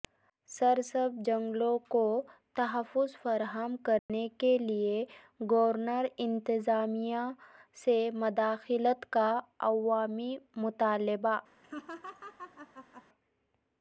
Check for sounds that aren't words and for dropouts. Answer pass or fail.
fail